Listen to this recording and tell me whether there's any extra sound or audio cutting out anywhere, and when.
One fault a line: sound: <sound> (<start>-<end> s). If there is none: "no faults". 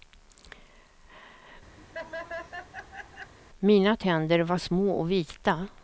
sound: laugh (1.8-3.3 s)